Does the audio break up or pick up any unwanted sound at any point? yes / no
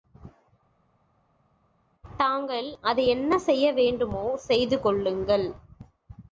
no